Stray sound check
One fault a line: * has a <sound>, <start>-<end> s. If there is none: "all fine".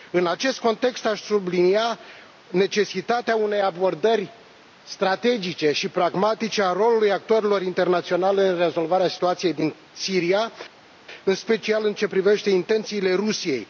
all fine